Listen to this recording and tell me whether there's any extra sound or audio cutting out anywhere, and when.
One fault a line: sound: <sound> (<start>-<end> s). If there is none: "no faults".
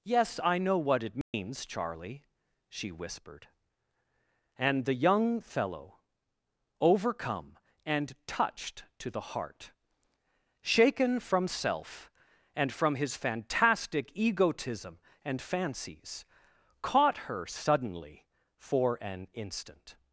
sound: dropout (1.2-1.3 s)